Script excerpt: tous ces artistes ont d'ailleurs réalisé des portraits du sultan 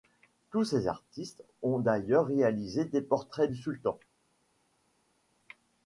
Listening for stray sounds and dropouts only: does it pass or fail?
pass